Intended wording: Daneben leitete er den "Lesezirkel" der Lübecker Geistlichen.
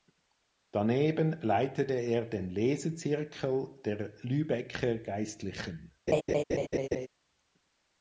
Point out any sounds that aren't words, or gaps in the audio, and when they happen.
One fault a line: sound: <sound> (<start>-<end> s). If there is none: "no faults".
sound: laugh (6.1-7.1 s)